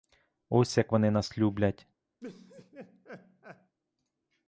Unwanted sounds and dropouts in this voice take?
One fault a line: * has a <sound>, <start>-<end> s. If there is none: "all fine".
* has a laugh, 2.2-3.8 s